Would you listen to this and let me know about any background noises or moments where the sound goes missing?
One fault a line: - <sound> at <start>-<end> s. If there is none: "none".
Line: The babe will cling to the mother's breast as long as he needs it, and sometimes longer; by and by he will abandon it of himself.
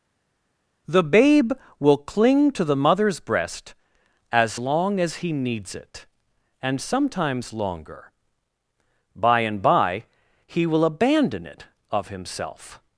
none